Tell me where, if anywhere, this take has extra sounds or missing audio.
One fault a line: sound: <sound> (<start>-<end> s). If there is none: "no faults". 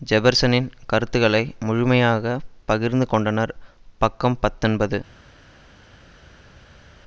no faults